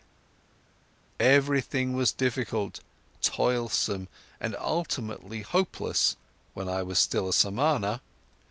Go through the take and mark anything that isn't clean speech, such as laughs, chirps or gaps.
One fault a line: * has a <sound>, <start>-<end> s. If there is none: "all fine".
all fine